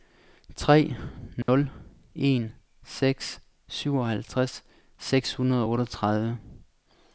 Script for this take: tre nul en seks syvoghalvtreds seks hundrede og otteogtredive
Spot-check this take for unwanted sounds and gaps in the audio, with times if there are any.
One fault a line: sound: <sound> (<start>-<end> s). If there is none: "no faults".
sound: dropout (1.4-1.5 s)